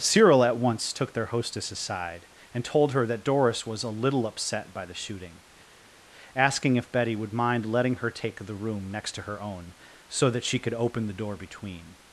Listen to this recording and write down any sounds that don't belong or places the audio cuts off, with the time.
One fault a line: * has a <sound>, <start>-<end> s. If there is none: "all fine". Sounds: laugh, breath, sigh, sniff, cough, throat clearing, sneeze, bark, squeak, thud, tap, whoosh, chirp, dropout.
all fine